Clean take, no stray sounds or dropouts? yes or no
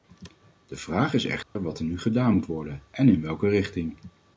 no